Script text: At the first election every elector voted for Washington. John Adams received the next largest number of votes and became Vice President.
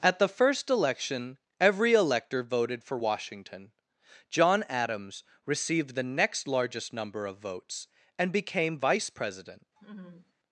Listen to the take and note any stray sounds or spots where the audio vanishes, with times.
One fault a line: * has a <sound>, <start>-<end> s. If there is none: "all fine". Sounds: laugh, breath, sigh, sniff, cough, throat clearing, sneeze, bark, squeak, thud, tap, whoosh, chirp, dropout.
* has a laugh, 9.8-10.3 s